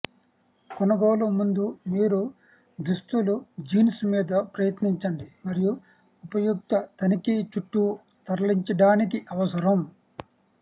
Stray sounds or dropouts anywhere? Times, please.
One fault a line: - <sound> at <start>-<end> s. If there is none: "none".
none